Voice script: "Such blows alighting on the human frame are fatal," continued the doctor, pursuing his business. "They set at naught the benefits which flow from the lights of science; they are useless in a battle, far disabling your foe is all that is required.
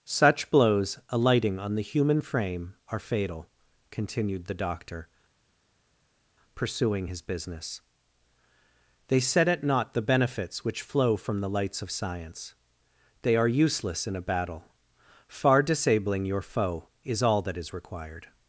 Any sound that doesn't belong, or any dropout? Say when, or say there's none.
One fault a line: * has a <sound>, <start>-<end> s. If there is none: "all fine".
all fine